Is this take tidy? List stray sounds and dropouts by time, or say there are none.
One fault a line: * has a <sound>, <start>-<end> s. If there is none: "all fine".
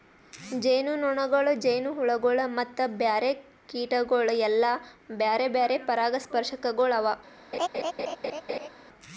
* has a laugh, 7.5-8.7 s